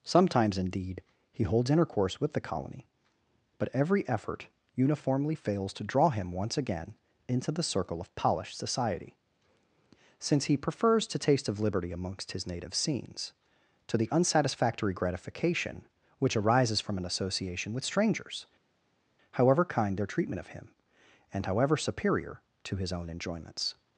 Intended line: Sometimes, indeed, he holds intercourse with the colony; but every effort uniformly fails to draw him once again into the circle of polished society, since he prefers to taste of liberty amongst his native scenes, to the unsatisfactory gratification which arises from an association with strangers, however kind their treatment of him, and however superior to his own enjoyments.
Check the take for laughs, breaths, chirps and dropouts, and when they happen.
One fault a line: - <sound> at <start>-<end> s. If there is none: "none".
none